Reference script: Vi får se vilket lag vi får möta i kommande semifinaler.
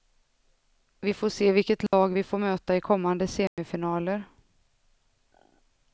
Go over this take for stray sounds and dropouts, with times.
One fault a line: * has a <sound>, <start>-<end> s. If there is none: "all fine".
* has a dropout, 1.9-1.9 s
* has a dropout, 3.5-3.6 s